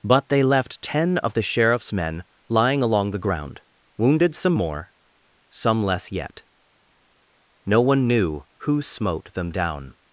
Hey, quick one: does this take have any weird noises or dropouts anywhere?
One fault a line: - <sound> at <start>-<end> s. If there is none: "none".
none